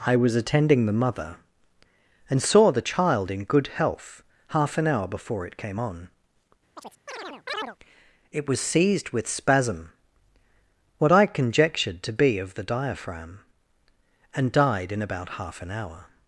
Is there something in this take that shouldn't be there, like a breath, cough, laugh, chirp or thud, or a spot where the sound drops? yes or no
yes